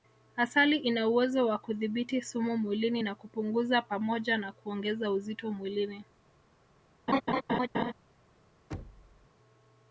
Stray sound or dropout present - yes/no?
yes